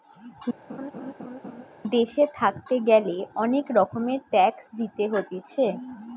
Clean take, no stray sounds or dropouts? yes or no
no